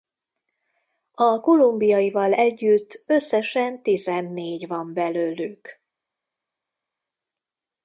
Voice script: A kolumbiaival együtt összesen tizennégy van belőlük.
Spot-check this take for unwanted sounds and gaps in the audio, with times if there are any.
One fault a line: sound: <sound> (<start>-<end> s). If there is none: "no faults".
no faults